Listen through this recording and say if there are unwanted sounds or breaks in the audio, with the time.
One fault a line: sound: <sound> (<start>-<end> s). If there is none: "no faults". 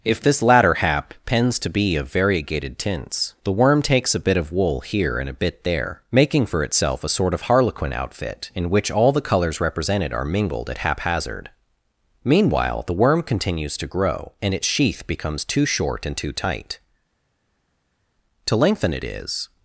no faults